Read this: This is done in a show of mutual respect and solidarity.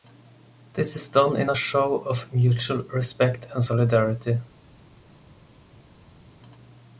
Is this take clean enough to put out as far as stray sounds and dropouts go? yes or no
yes